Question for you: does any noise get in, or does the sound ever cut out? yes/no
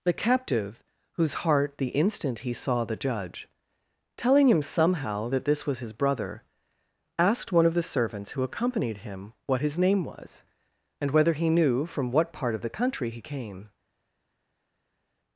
no